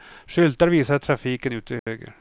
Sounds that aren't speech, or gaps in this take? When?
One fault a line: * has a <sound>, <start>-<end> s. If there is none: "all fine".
* has a dropout, 1.8-1.9 s